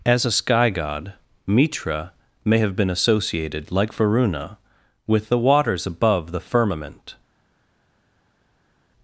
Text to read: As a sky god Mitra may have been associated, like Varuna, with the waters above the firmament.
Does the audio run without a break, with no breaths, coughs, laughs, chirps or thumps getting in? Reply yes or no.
yes